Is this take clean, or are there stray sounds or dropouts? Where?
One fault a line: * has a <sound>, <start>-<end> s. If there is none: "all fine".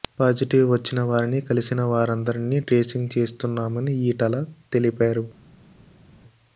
all fine